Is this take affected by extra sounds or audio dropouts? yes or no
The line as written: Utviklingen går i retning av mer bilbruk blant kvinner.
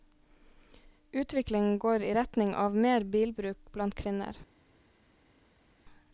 no